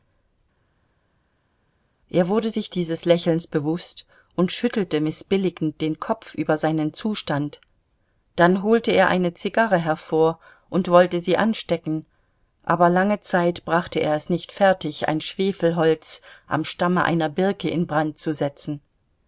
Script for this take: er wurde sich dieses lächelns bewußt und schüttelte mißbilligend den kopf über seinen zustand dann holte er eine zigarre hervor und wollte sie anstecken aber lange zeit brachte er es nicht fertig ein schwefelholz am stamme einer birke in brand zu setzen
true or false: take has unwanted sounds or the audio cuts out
false